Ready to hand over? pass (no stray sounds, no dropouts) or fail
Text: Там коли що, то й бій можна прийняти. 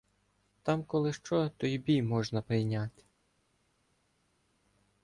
pass